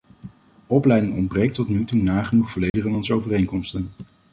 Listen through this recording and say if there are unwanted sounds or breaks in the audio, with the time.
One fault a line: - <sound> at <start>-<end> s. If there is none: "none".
- dropout at 2.7-2.7 s